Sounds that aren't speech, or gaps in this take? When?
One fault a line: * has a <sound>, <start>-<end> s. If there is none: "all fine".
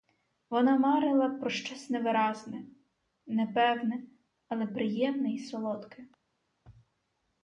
all fine